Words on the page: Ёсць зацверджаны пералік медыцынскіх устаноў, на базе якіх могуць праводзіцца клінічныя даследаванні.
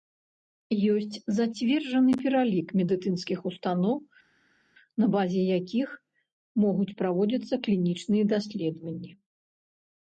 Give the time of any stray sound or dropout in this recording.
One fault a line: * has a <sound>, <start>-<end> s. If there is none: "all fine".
all fine